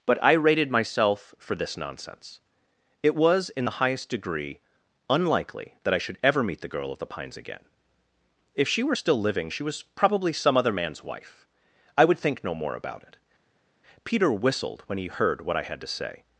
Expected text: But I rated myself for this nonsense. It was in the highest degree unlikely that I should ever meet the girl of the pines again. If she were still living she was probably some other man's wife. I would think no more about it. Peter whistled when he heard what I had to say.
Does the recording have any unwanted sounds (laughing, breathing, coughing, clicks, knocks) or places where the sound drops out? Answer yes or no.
no